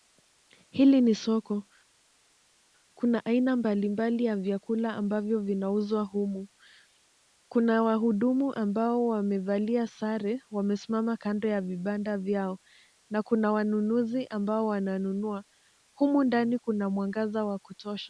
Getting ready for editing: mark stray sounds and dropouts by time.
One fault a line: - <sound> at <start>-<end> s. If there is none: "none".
none